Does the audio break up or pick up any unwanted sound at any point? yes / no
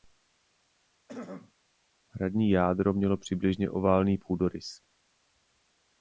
yes